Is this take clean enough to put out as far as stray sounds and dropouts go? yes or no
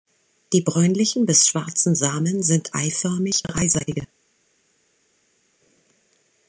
yes